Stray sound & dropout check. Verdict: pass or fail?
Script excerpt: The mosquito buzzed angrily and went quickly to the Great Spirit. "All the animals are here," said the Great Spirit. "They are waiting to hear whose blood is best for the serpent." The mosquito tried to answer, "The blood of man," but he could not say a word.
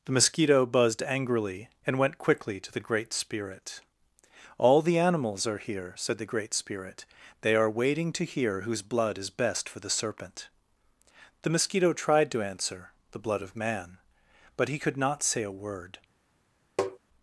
fail